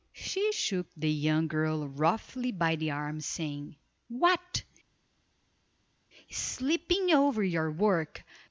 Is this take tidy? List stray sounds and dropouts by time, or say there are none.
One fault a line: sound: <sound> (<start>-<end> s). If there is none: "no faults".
no faults